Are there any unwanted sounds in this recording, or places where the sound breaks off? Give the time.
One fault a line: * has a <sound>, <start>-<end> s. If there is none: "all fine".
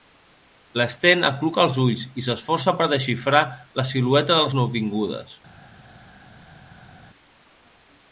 all fine